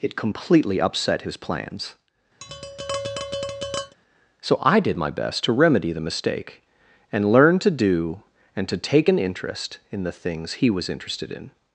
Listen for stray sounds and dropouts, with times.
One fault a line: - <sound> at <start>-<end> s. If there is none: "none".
- tap at 2.4-4.0 s